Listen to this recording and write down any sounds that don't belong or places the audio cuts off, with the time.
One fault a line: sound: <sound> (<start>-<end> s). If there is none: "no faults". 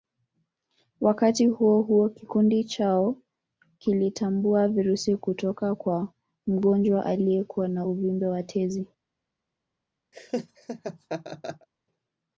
sound: laugh (10.1-11.7 s)